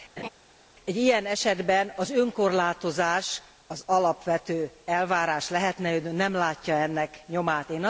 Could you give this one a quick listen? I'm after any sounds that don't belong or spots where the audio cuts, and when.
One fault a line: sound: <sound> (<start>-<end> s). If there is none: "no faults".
sound: laugh (0.2-0.3 s)